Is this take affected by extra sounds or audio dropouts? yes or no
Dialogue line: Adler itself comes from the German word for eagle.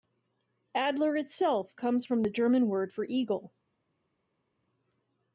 no